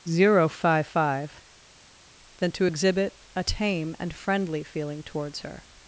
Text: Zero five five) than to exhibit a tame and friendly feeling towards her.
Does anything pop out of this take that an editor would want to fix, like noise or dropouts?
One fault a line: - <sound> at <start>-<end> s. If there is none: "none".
none